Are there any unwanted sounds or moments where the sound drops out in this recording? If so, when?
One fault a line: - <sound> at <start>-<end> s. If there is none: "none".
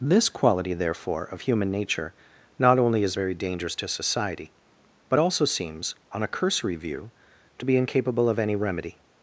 none